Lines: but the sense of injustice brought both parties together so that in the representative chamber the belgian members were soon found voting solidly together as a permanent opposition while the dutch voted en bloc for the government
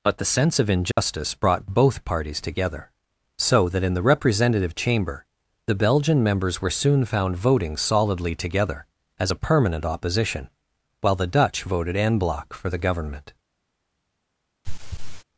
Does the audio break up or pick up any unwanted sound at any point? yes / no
yes